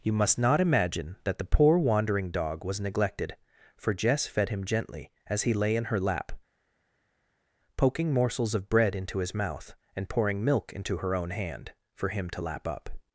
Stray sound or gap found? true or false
false